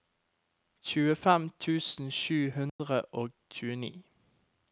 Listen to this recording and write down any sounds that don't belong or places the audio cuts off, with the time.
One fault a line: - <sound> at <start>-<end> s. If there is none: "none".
- dropout at 2.7-2.8 s